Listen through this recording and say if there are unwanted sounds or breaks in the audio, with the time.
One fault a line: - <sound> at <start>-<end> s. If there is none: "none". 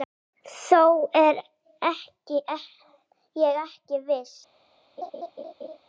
- laugh at 5.0-5.8 s